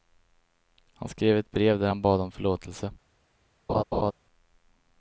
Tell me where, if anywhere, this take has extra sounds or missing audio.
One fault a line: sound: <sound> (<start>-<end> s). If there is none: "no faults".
sound: laugh (3.7-4.1 s)